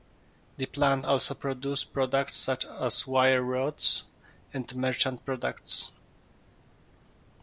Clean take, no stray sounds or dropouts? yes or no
yes